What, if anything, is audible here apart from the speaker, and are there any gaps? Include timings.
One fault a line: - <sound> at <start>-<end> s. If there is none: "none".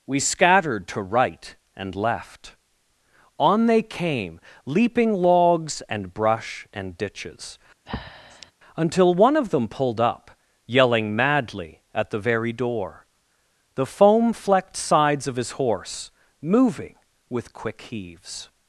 - breath at 7.9-8.5 s